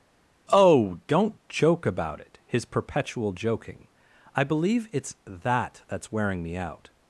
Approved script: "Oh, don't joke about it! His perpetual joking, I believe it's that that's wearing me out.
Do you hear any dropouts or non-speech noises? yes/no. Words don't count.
no